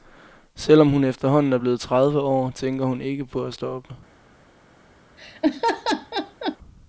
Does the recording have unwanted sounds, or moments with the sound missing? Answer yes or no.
yes